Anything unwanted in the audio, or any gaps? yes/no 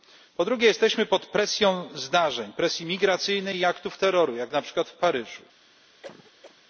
yes